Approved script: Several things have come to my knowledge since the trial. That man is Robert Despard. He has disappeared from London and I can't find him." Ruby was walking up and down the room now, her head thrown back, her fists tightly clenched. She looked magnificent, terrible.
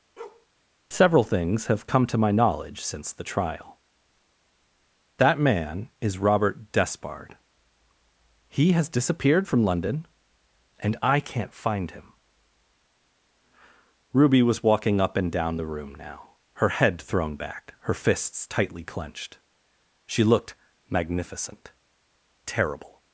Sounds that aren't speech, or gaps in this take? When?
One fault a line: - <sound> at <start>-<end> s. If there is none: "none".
- bark at 0.2-0.5 s